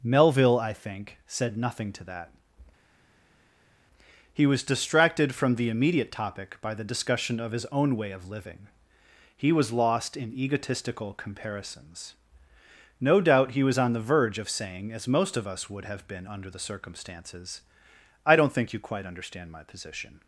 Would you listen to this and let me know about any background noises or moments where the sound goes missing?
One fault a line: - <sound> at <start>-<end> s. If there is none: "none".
none